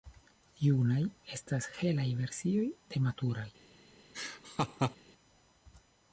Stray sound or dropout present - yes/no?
yes